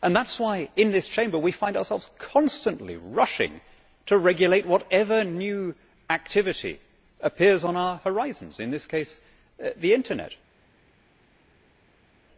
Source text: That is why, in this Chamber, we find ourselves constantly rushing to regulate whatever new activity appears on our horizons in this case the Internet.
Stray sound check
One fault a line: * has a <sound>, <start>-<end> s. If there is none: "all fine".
all fine